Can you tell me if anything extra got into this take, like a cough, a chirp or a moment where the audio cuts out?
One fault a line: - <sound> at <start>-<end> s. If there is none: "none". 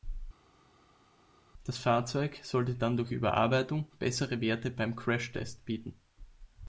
none